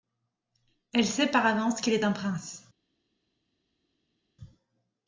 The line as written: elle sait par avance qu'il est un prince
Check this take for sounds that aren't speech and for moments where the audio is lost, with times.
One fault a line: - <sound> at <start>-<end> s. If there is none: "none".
none